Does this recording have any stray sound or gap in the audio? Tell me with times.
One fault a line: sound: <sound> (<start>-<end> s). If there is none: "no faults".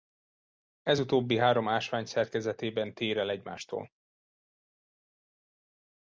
no faults